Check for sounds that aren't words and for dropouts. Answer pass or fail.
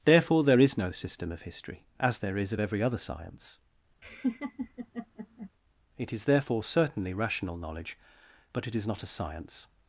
fail